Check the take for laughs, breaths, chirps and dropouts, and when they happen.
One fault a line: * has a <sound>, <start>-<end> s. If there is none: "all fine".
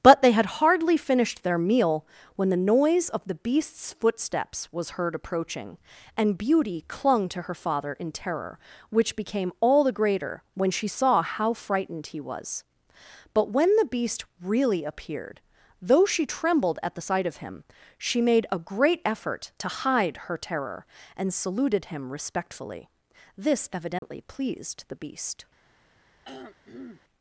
* has a dropout, 24.0-24.0 s
* has a throat clearing, 26.2-27.0 s